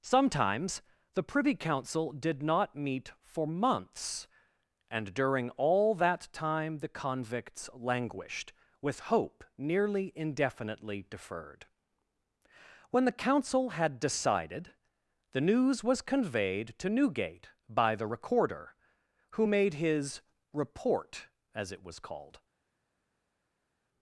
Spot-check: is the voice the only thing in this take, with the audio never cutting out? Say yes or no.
yes